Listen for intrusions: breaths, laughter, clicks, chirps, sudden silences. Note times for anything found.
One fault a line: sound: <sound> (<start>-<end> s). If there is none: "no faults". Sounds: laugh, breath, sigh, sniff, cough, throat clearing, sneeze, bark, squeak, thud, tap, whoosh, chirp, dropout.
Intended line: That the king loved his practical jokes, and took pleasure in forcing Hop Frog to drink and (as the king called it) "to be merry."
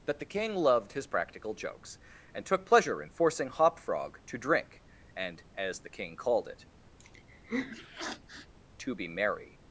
sound: sniff (7.0-8.5 s)